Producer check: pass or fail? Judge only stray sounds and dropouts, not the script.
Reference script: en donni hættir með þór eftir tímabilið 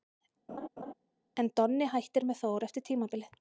fail